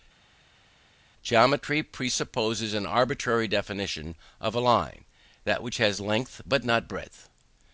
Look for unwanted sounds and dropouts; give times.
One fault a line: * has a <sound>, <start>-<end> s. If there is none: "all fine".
all fine